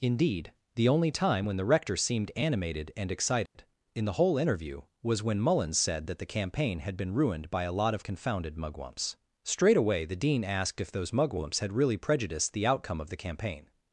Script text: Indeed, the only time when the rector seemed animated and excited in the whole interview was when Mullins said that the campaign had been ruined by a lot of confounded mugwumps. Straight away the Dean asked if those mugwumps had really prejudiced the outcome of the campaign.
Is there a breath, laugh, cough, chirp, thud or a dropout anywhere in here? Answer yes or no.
yes